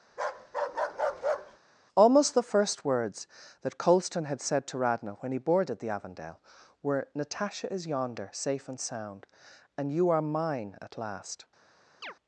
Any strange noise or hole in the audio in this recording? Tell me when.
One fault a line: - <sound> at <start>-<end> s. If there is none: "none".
- bark at 0.1-1.6 s
- chirp at 12.0-12.1 s